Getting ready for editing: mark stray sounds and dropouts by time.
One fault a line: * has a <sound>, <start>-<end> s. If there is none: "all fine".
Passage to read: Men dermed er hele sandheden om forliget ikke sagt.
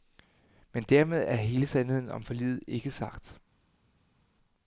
all fine